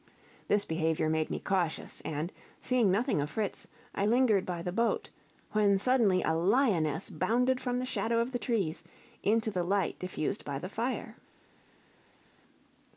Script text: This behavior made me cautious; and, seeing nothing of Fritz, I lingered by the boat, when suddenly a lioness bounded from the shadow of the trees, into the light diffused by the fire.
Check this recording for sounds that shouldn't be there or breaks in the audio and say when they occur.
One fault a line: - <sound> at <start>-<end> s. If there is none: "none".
none